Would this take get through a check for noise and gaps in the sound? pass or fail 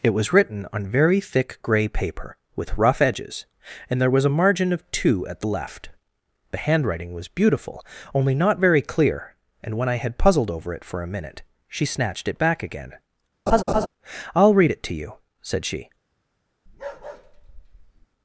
fail